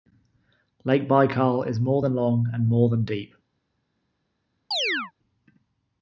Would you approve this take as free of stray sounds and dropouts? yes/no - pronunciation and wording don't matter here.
no